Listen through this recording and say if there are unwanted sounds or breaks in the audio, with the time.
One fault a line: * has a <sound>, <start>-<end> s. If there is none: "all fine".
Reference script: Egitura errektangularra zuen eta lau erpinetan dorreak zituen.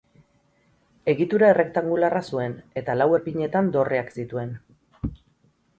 all fine